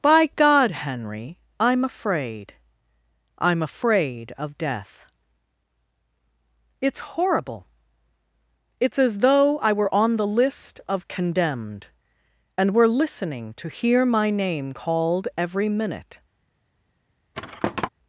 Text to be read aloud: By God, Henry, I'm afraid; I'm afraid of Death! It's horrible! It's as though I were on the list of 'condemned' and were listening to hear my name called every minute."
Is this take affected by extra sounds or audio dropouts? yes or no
yes